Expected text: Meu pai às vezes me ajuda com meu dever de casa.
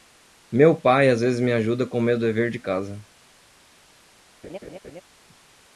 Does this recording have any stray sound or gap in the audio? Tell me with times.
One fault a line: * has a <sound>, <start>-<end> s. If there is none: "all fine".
* has a laugh, 4.4-5.0 s